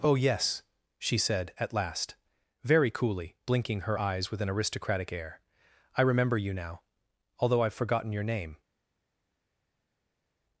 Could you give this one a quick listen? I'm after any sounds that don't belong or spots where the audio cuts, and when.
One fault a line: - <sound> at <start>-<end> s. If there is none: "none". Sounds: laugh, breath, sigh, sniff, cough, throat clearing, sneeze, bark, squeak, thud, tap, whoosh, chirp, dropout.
none